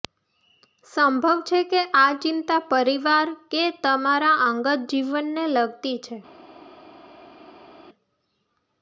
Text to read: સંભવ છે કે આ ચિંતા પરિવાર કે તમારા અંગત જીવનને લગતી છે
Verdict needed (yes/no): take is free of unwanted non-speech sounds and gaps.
yes